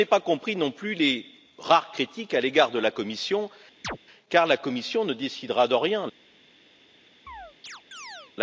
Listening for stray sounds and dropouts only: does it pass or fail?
fail